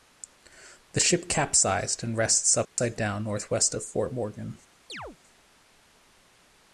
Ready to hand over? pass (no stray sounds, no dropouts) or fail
fail